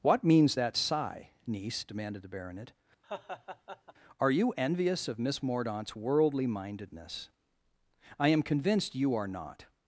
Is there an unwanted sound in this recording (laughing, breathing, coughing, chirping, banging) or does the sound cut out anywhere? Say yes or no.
yes